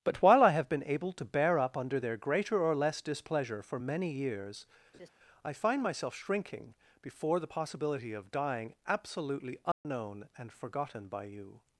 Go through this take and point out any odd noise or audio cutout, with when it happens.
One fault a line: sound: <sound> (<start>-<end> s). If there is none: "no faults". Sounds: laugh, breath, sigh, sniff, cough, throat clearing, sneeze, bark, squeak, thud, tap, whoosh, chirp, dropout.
sound: laugh (4.9-5.1 s)
sound: dropout (9.7-9.8 s)